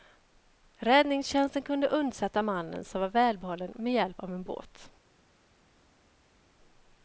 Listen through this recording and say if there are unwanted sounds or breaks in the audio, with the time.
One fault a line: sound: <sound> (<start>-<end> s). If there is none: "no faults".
no faults